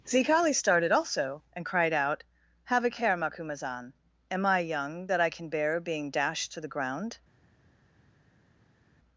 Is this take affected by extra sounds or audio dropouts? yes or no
no